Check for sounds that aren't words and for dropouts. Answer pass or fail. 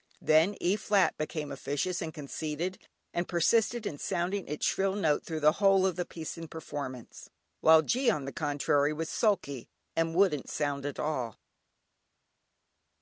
pass